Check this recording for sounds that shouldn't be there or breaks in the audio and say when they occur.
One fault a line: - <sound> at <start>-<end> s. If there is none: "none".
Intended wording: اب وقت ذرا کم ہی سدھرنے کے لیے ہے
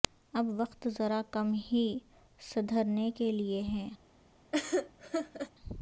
- laugh at 4.5-5.5 s